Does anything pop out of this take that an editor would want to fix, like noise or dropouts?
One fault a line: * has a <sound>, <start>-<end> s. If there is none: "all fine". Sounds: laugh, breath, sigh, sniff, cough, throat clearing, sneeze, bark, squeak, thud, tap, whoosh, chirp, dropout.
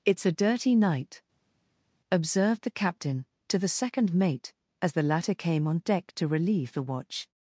all fine